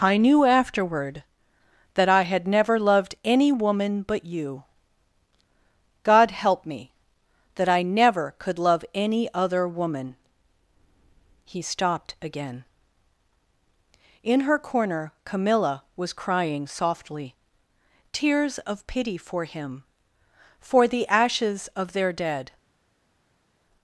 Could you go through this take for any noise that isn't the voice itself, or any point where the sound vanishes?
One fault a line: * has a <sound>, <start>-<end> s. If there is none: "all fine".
all fine